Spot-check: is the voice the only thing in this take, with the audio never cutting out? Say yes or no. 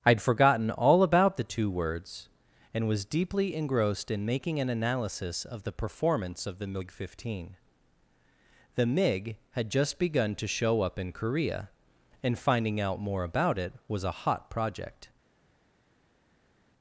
yes